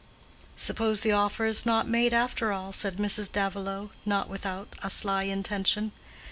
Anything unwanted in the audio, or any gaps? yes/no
no